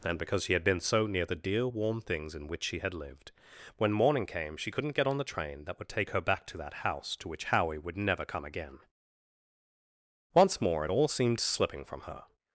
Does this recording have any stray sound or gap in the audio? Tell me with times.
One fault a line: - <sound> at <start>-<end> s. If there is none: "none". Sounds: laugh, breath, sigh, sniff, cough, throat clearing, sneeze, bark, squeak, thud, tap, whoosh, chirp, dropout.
none